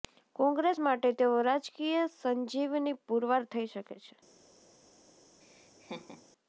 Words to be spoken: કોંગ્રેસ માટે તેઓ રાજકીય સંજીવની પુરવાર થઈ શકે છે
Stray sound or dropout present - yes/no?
yes